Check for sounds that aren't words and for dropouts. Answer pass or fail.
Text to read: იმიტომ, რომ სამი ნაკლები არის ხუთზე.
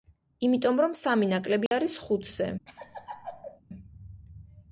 fail